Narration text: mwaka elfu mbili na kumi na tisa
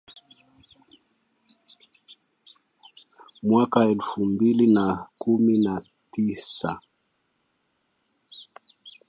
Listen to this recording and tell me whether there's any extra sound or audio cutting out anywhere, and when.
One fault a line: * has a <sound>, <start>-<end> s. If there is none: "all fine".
all fine